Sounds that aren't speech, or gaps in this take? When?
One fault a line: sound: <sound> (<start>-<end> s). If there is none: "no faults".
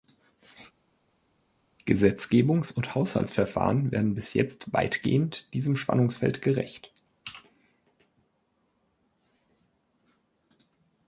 no faults